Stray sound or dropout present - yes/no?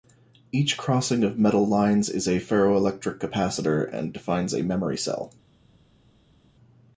no